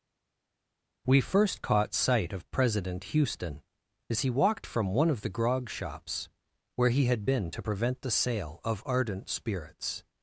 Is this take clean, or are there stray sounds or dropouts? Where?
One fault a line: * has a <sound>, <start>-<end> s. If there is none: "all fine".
all fine